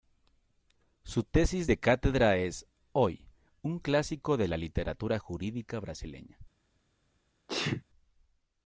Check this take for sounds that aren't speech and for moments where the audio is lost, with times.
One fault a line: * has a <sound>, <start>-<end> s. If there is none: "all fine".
* has a sneeze, 7.5-7.8 s